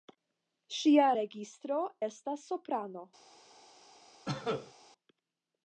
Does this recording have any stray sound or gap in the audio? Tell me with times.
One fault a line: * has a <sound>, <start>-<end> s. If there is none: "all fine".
* has a cough, 4.3-4.7 s